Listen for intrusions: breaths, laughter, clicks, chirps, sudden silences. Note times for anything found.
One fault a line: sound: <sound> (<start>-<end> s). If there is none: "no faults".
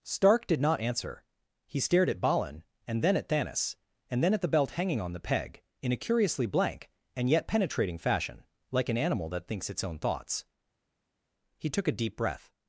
no faults